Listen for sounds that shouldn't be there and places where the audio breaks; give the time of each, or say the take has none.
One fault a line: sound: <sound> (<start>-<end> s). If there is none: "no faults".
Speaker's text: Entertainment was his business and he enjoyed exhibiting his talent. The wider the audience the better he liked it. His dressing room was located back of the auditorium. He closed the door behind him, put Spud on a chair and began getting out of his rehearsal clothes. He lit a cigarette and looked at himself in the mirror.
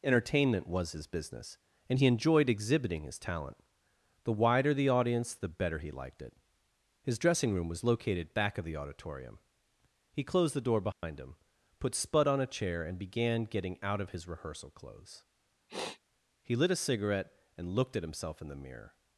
sound: dropout (10.9-11.0 s)
sound: sniff (15.7-16.0 s)